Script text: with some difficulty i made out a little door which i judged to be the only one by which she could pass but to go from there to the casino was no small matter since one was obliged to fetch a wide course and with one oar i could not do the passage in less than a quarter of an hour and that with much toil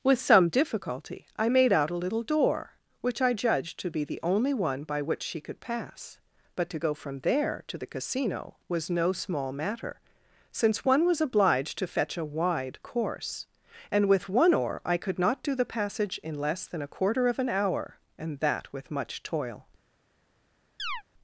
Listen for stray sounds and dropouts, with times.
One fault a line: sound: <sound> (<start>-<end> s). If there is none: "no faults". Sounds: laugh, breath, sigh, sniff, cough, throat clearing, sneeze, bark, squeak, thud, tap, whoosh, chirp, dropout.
sound: chirp (20.8-21.0 s)